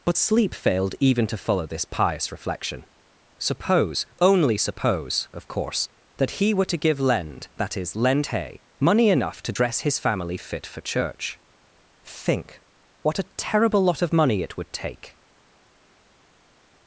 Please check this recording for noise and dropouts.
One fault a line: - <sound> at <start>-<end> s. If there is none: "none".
none